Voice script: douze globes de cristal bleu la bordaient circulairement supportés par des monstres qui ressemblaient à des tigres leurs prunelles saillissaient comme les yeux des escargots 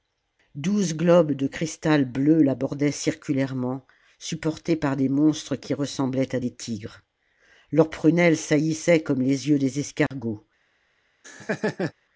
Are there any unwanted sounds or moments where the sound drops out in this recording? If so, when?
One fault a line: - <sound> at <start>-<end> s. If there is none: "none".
- dropout at 10.1-10.1 s
- laugh at 11.2-11.9 s